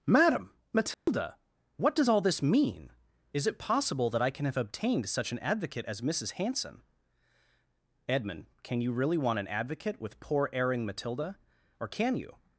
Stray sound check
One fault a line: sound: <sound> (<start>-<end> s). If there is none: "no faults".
sound: dropout (0.9-1.1 s)